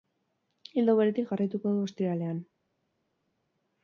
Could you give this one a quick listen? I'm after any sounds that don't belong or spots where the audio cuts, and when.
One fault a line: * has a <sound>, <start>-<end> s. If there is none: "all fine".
all fine